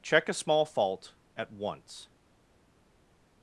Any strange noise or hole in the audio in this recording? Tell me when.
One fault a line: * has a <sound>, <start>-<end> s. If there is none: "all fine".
all fine